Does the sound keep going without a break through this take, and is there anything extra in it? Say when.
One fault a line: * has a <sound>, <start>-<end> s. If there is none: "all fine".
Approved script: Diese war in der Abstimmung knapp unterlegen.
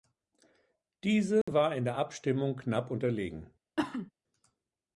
* has a dropout, 1.4-1.5 s
* has a cough, 3.8-4.1 s